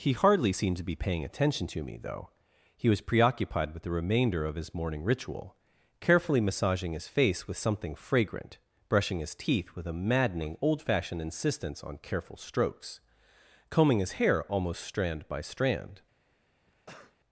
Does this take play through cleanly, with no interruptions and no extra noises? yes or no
no